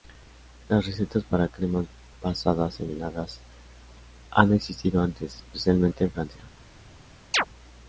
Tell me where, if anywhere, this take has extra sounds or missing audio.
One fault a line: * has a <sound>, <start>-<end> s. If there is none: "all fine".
* has a chirp, 7.3-7.5 s